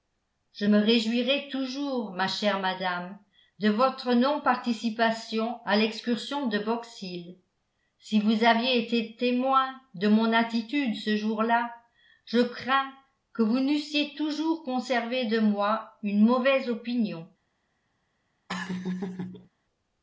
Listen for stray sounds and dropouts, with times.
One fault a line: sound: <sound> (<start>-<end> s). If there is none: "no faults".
sound: laugh (18.5-19.5 s)